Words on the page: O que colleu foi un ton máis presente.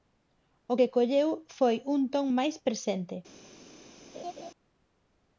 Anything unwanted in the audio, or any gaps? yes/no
yes